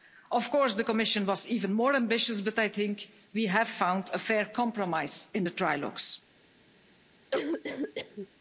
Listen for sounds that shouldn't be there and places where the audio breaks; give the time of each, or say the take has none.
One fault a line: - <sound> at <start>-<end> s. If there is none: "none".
- cough at 7.3-8.3 s